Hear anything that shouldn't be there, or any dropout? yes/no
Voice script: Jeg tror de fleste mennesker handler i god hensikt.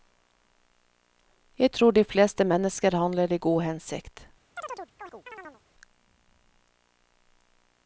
yes